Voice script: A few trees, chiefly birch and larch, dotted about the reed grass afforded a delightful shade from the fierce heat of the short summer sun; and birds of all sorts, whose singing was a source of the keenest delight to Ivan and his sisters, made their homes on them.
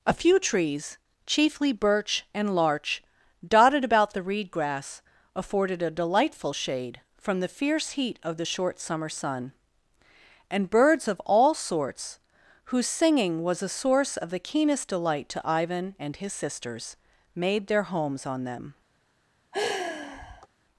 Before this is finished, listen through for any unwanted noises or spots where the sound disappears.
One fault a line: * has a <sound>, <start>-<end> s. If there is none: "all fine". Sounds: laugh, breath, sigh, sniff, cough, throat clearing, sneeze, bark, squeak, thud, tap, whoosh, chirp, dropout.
* has a sigh, 19.5-20.5 s